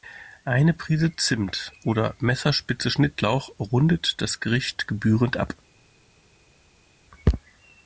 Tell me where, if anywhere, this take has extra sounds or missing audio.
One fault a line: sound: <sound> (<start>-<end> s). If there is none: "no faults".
no faults